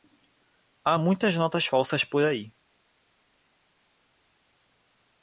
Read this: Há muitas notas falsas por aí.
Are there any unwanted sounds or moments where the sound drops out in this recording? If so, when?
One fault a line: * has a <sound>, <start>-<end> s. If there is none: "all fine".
all fine